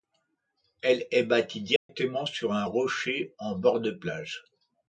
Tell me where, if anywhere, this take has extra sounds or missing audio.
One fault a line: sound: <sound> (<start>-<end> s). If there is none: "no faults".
sound: dropout (1.8-1.9 s)